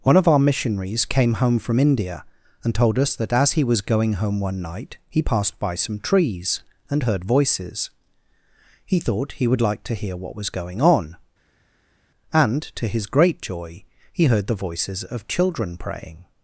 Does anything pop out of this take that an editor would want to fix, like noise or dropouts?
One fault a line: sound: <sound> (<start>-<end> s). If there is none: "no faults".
no faults